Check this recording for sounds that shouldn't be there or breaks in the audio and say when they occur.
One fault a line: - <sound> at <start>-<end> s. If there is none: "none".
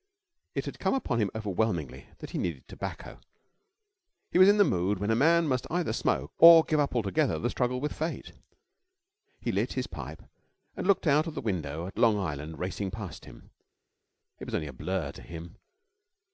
none